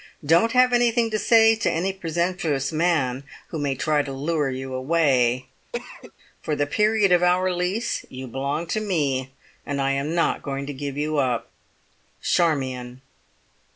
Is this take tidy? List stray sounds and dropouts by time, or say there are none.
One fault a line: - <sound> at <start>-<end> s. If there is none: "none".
- cough at 5.7-6.1 s